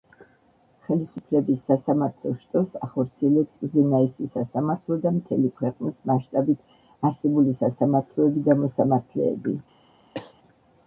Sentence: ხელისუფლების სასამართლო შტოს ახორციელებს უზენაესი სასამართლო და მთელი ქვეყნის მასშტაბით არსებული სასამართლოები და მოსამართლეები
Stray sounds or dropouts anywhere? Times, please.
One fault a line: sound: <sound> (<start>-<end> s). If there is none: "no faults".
sound: cough (10.1-10.3 s)